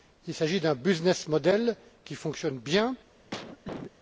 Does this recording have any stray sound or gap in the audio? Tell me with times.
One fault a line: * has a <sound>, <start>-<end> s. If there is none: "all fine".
* has a cough, 3.3-3.9 s